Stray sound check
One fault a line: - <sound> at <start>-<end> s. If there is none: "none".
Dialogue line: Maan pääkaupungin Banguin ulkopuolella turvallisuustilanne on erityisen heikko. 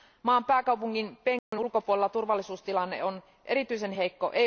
- dropout at 1.4-1.5 s